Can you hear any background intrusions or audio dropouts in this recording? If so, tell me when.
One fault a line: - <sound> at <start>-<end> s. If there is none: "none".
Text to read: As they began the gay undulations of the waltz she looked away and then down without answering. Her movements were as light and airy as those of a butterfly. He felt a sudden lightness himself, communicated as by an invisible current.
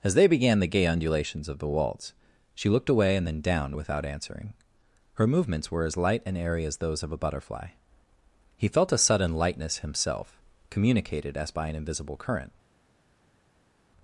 none